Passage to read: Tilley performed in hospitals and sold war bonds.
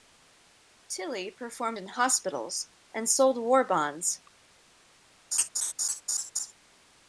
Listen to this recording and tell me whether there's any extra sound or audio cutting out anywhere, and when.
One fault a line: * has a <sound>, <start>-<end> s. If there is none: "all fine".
* has a laugh, 5.3-6.5 s